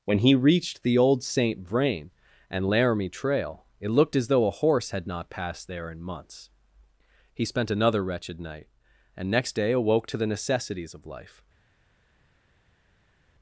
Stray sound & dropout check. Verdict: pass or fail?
pass